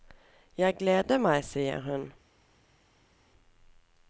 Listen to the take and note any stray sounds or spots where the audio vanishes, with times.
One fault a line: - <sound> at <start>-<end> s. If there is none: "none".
none